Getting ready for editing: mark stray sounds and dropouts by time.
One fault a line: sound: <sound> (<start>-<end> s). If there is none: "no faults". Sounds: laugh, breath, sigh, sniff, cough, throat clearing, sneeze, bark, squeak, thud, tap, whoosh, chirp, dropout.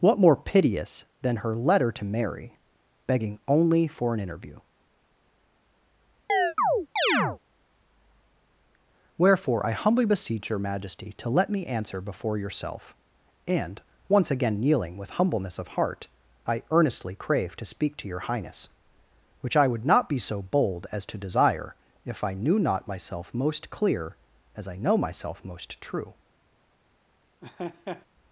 sound: chirp (6.3-7.4 s)
sound: laugh (27.4-28.1 s)